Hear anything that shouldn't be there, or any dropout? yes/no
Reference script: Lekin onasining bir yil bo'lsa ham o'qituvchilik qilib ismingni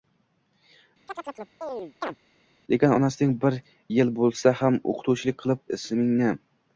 yes